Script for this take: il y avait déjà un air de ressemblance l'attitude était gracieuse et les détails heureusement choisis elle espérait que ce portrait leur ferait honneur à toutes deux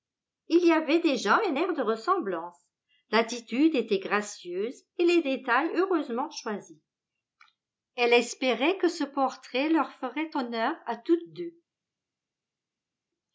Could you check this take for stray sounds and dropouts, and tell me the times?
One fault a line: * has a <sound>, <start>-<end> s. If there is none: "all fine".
all fine